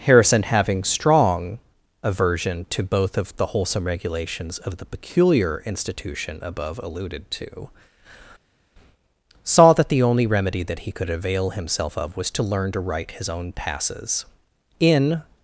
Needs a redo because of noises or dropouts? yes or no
no